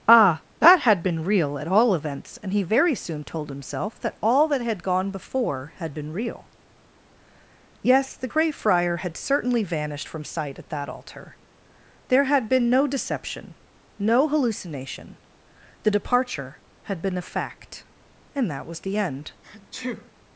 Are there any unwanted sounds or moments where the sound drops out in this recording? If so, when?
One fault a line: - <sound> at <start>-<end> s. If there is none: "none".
- sneeze at 19.4-20.1 s